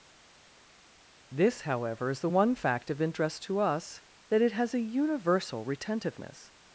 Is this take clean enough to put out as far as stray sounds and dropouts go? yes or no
yes